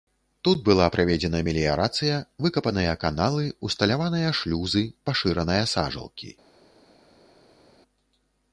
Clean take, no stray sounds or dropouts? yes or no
yes